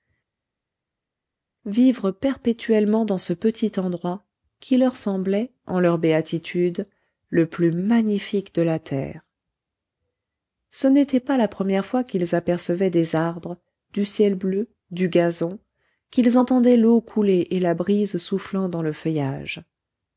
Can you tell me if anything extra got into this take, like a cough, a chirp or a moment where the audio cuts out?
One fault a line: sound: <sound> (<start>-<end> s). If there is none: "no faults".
no faults